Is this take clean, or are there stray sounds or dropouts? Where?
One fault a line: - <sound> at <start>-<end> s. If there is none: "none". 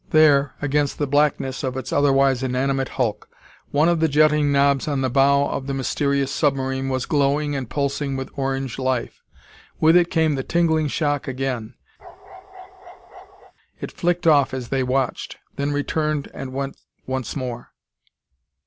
- bark at 12.0-13.5 s